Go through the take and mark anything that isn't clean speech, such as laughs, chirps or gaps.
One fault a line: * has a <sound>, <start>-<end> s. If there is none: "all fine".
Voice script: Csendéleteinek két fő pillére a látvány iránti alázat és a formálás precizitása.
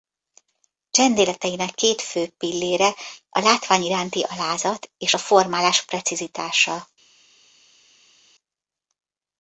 all fine